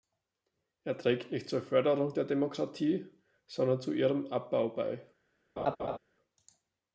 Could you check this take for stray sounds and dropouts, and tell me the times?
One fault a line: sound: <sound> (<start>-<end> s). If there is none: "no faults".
sound: laugh (5.6-6.0 s)